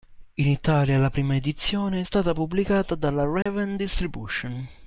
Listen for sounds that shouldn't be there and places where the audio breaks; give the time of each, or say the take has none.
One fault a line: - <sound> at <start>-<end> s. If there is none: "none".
- dropout at 3.4-3.5 s